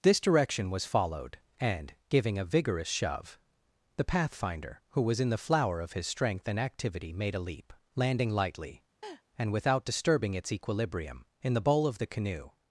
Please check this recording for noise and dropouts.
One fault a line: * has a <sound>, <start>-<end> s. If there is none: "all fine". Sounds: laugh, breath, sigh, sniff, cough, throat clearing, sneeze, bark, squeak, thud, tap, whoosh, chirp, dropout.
* has a laugh, 9.0-9.2 s